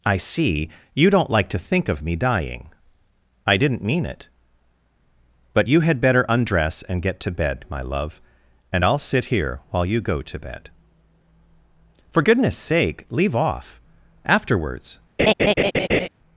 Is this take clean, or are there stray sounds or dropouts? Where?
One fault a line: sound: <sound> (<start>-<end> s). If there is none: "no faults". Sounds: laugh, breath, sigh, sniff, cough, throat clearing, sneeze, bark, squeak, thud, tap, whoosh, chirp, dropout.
sound: laugh (15.2-16.1 s)